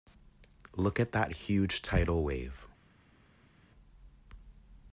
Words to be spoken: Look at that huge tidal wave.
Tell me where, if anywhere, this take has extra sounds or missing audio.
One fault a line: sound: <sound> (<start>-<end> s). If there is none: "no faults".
no faults